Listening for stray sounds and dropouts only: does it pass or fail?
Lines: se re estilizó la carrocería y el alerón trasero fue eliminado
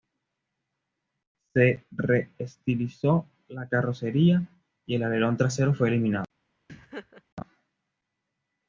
fail